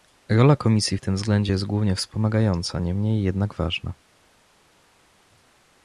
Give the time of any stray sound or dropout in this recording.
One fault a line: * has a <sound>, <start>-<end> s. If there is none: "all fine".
all fine